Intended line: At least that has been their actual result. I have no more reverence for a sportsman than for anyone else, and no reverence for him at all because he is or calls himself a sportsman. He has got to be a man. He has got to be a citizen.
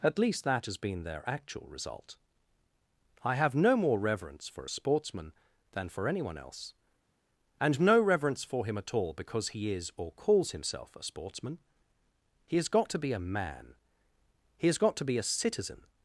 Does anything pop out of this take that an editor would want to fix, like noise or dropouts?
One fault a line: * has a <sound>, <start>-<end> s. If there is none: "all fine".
all fine